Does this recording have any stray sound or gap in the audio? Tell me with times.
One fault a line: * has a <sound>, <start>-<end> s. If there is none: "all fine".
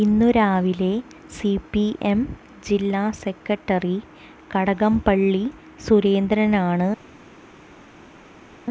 all fine